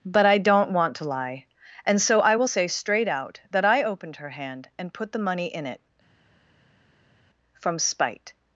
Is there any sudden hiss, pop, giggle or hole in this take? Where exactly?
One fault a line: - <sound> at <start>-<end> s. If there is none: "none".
none